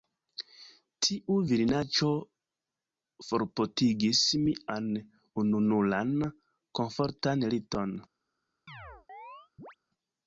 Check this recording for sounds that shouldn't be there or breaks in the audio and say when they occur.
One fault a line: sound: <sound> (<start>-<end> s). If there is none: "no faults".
sound: chirp (8.7-9.8 s)